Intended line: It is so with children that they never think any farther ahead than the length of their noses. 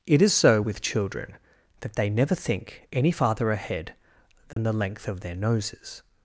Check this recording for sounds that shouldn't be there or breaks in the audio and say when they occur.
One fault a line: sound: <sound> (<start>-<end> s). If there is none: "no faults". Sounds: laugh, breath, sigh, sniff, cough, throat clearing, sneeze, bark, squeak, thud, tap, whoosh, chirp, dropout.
sound: dropout (4.5-4.6 s)